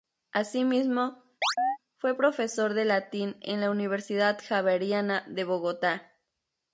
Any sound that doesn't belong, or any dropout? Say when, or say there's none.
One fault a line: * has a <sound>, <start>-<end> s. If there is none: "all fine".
* has a chirp, 1.4-1.8 s